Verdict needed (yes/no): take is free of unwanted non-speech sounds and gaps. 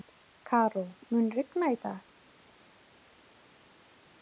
yes